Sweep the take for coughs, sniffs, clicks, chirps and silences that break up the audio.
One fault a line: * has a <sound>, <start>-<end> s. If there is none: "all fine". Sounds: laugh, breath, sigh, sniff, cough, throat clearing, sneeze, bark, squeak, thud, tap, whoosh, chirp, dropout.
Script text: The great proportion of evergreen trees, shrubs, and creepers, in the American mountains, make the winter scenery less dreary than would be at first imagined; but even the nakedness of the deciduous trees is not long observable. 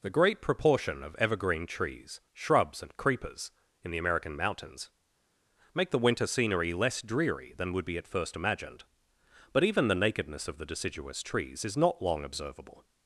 all fine